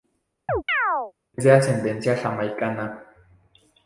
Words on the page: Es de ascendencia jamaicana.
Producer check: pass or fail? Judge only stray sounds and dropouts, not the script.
fail